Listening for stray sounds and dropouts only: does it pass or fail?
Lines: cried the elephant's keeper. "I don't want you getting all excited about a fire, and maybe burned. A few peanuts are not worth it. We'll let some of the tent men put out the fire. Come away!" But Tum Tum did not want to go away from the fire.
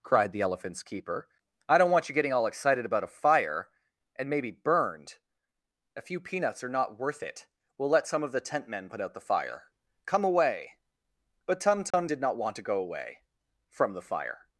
fail